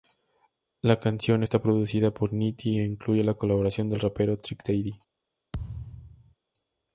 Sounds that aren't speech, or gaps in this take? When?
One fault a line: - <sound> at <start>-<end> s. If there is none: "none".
- thud at 5.5-6.4 s